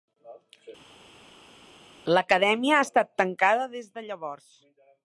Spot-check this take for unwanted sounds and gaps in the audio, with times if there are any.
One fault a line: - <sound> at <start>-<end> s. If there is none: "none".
none